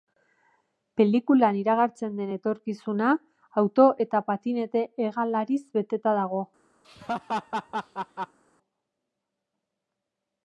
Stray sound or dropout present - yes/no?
yes